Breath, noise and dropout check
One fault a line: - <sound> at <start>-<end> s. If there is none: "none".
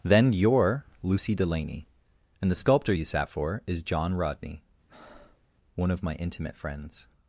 - breath at 4.9-5.5 s